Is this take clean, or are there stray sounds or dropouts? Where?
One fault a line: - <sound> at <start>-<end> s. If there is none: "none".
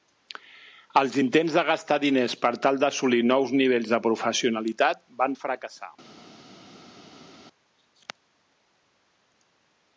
none